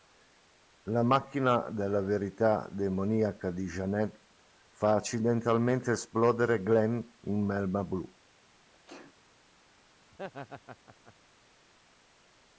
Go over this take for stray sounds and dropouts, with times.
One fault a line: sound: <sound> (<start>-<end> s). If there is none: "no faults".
sound: sneeze (8.7-9.2 s)
sound: laugh (10.1-11.1 s)